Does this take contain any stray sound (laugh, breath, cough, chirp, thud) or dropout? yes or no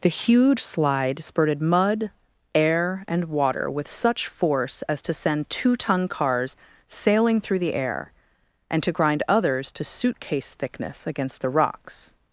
no